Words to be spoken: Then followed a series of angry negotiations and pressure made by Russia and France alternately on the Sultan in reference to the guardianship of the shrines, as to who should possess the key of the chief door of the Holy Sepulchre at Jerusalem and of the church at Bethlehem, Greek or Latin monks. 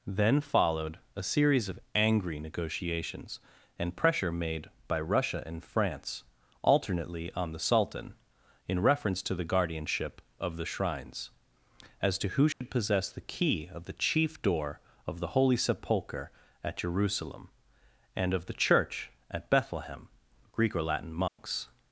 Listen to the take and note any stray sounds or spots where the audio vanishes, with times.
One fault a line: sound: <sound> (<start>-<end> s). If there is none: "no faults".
sound: dropout (12.5-12.6 s)
sound: dropout (21.3-21.4 s)